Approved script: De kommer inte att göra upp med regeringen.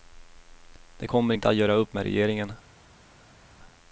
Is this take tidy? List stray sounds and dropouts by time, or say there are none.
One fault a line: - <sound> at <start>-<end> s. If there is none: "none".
none